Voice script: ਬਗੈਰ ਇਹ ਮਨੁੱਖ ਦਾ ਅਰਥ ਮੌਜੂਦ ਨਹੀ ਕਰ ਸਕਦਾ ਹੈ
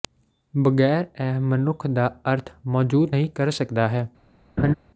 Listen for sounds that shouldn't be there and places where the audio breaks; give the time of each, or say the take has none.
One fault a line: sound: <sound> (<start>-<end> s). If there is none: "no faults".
sound: laugh (4.6-4.7 s)